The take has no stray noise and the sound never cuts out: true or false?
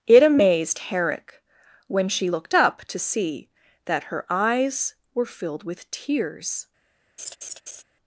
false